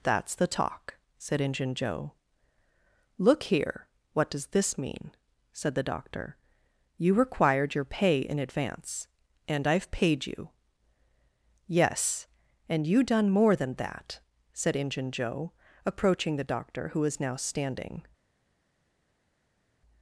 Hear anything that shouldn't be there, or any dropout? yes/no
no